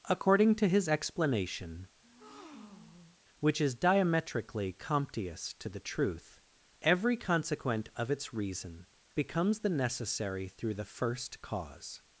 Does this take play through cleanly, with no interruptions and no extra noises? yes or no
no